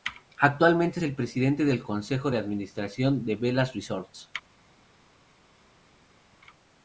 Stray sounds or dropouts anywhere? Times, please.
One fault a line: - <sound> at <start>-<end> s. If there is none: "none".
none